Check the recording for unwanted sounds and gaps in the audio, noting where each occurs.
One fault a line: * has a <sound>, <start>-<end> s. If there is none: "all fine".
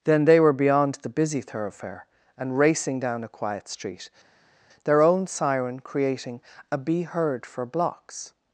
all fine